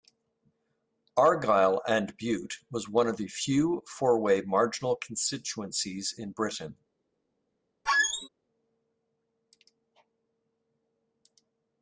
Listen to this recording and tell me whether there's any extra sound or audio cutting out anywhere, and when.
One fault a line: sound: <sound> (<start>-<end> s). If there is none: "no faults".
sound: squeak (7.9-8.3 s)